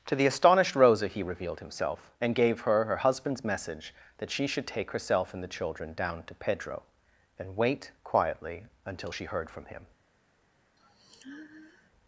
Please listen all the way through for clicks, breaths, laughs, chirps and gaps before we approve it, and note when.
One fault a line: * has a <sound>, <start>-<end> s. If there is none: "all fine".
* has a sigh, 10.8-11.9 s